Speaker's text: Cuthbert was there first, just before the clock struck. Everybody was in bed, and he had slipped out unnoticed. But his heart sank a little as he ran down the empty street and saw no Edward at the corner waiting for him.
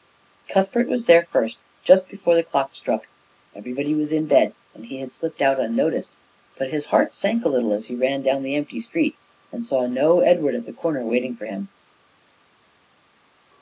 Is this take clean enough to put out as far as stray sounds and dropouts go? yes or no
yes